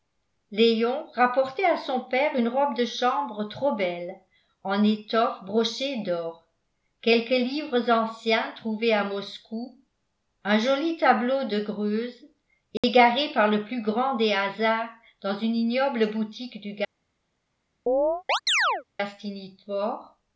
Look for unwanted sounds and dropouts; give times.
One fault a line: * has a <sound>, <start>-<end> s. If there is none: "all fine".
* has a dropout, 12.8-12.8 s
* has a chirp, 17.9-18.8 s